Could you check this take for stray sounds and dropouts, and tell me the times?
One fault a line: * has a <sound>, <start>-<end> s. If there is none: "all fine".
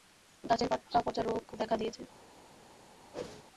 * has a whoosh, 3.1-3.4 s